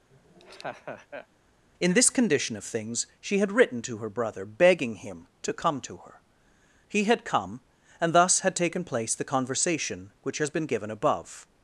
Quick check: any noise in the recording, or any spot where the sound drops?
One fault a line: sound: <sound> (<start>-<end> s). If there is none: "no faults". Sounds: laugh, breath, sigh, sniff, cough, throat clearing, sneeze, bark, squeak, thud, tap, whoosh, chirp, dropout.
sound: laugh (0.1-1.3 s)